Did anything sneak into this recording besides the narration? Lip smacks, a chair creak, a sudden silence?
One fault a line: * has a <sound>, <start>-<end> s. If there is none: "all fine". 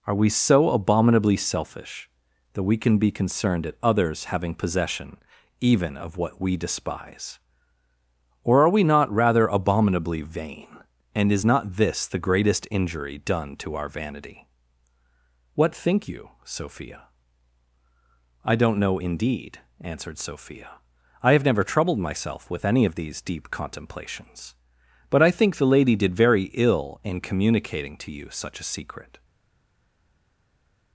all fine